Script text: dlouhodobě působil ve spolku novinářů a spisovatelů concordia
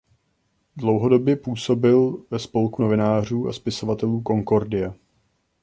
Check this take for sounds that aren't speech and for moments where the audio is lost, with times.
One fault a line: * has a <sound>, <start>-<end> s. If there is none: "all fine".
all fine